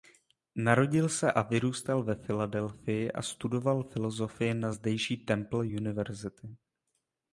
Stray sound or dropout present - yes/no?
no